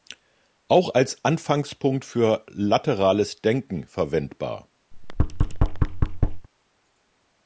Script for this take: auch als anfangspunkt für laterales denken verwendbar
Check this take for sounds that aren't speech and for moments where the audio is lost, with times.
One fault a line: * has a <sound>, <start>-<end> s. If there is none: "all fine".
* has a thud, 4.9-6.5 s